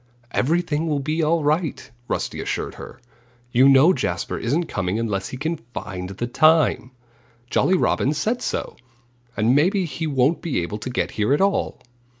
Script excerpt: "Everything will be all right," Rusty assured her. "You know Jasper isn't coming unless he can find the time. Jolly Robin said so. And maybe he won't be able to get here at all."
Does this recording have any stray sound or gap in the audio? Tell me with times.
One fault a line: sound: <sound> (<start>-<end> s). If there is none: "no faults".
no faults